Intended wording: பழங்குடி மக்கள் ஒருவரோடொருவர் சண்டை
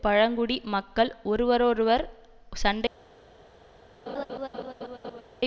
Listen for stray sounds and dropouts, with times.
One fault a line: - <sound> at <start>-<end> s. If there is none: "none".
- laugh at 4.1-5.2 s